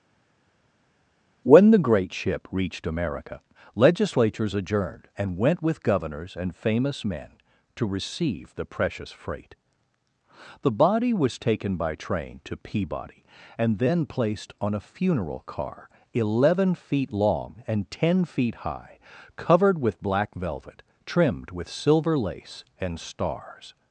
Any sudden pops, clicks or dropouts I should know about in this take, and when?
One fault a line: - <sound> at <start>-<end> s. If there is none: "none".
none